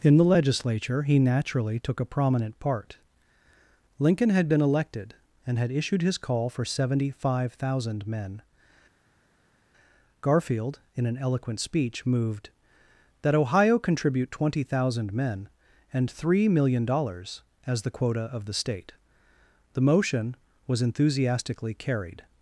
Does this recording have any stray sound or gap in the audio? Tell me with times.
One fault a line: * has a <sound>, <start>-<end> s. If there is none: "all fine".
all fine